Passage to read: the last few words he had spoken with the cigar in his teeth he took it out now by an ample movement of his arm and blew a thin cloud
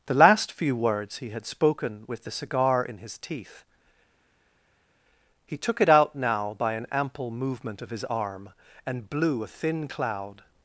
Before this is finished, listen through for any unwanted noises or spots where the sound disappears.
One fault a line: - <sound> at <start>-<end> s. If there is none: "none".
none